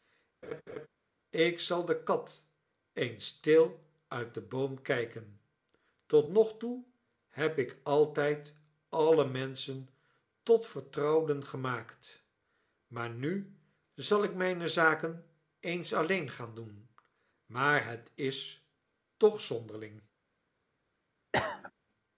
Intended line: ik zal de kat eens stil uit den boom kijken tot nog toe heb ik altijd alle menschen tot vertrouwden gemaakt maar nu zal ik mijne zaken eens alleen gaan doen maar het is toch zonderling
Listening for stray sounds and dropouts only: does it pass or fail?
fail